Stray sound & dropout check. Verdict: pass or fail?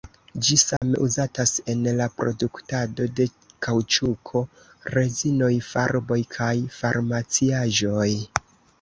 fail